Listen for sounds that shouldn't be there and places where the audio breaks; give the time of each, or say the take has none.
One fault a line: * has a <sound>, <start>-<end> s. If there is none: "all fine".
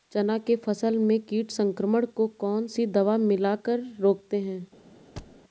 * has a thud, 5.2-5.4 s